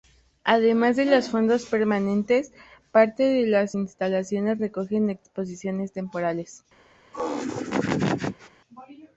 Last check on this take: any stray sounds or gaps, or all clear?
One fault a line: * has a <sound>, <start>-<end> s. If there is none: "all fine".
* has a laugh, 7.1-8.5 s